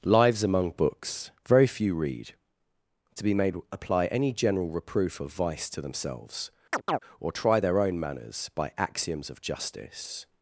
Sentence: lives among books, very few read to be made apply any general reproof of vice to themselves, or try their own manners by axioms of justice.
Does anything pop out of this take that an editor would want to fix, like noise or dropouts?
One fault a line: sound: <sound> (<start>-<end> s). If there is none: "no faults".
sound: chirp (6.7-7.0 s)